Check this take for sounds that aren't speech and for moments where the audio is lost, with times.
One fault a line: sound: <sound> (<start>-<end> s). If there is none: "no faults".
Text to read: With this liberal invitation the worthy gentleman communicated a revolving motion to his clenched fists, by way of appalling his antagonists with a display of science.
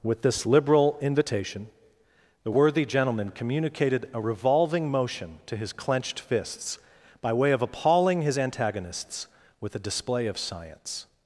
no faults